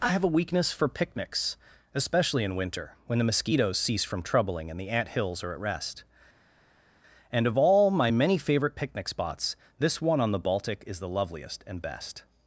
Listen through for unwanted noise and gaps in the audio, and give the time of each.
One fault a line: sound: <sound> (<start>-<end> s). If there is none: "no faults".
no faults